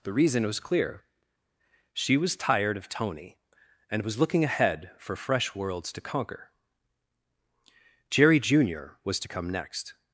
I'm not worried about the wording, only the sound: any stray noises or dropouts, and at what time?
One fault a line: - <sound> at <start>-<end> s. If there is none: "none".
none